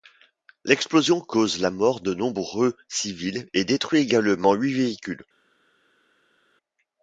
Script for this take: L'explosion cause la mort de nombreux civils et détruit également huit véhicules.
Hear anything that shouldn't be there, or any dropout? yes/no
no